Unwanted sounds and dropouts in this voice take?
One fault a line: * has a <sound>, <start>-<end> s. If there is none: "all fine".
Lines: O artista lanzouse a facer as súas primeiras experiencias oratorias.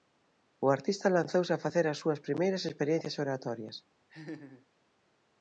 * has a laugh, 4.1-4.7 s